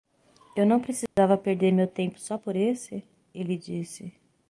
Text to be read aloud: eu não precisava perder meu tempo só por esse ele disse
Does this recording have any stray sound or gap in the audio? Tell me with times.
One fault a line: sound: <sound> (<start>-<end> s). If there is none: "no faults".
sound: dropout (1.1-1.2 s)